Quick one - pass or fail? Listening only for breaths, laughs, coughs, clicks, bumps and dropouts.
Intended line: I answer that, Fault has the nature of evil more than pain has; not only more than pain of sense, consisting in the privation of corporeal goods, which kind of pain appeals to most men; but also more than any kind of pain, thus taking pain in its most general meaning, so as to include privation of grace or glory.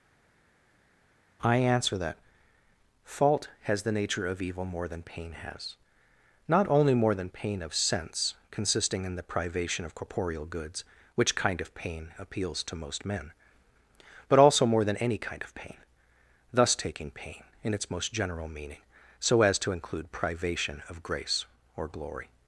pass